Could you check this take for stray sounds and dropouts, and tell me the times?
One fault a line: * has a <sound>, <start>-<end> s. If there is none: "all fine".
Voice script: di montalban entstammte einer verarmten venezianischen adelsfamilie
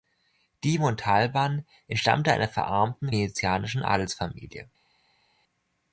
all fine